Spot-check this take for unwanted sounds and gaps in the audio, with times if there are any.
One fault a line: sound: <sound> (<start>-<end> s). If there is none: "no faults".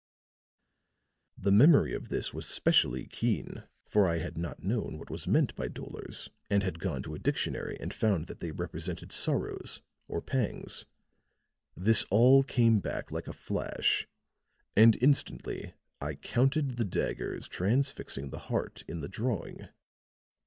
no faults